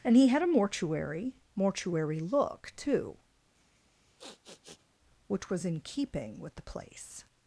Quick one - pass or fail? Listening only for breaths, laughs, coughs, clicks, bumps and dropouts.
fail